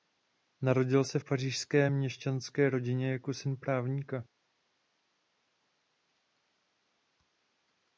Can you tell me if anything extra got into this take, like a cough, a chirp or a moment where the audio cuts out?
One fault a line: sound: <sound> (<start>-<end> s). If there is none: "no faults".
no faults